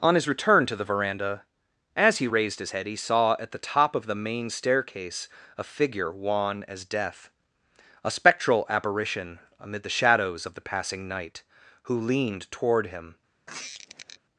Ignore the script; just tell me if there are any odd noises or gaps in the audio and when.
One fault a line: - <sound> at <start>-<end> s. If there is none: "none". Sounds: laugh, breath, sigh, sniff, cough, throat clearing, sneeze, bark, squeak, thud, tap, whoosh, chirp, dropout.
- squeak at 13.5-14.2 s